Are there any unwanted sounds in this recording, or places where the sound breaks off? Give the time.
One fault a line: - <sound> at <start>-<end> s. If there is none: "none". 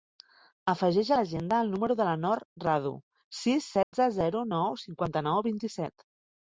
- dropout at 3.8-3.9 s